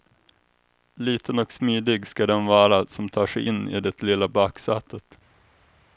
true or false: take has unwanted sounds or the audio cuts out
false